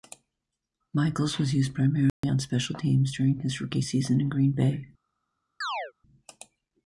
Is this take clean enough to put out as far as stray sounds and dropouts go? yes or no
no